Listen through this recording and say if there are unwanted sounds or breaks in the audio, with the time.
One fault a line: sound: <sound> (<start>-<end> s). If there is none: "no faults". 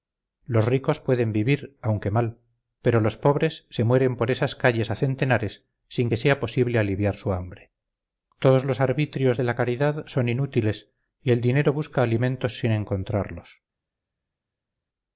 no faults